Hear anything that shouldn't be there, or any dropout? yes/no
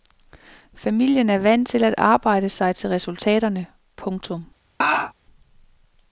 yes